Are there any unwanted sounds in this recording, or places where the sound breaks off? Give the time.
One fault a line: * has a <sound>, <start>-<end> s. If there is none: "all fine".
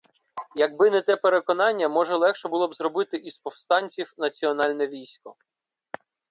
all fine